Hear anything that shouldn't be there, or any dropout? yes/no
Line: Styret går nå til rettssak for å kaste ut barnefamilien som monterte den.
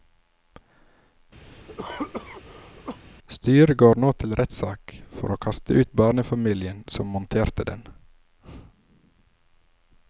yes